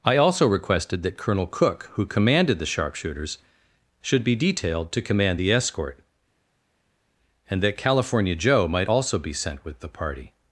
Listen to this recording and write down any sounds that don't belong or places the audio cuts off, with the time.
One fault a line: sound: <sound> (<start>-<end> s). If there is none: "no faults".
no faults